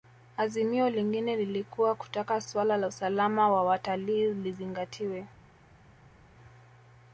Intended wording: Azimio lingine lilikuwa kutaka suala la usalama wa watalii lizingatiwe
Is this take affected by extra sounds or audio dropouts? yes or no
no